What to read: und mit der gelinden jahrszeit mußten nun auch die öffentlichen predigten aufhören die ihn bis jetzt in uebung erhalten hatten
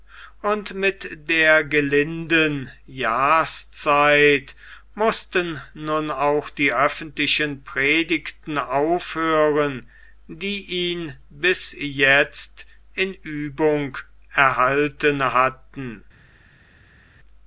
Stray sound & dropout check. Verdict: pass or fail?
pass